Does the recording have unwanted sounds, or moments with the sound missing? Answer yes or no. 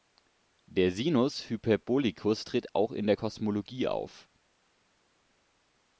no